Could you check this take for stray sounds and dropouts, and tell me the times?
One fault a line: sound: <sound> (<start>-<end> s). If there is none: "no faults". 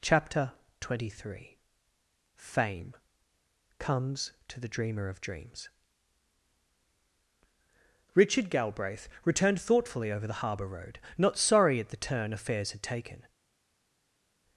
no faults